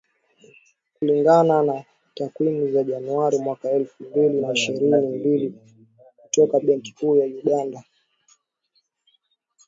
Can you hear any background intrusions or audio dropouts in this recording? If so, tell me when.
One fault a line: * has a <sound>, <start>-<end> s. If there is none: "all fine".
all fine